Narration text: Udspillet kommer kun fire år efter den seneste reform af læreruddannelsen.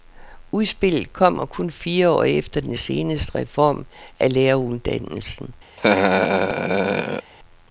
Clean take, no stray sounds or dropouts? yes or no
no